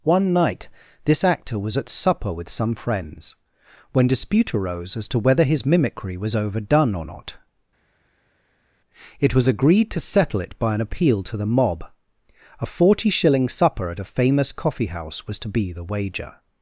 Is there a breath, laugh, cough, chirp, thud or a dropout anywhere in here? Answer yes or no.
no